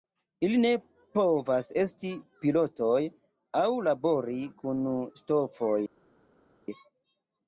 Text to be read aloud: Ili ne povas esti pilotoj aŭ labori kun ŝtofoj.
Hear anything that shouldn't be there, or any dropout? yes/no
no